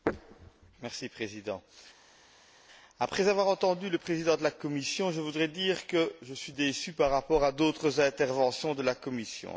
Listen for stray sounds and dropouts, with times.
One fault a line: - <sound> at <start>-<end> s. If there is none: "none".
none